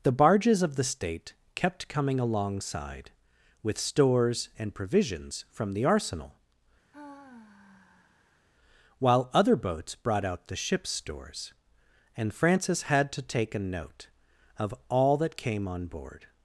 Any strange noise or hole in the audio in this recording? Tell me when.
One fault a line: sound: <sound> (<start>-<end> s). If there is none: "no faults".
sound: sigh (6.9-8.5 s)